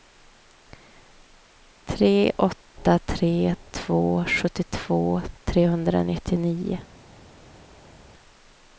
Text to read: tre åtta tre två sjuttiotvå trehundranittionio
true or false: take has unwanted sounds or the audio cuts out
false